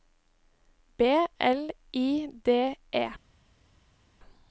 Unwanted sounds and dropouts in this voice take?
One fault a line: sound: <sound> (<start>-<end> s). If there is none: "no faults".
no faults